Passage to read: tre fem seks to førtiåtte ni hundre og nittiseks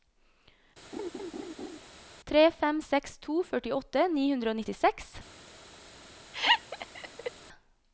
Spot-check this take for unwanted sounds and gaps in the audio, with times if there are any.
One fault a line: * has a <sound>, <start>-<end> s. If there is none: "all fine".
* has a laugh, 0.9-1.8 s
* has a laugh, 6.3-7.3 s